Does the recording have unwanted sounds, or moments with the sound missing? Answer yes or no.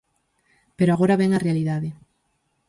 no